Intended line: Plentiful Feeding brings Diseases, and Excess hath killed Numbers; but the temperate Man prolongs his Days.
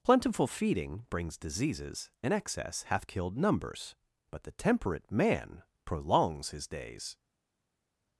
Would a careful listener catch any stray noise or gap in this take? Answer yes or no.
no